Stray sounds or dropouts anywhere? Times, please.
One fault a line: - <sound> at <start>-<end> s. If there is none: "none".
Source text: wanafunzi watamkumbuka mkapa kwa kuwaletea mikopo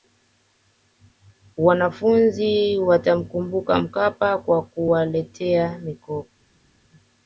none